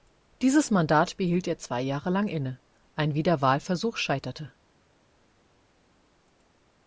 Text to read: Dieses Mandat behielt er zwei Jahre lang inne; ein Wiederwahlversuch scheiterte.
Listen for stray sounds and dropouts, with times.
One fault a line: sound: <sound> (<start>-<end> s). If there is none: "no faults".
no faults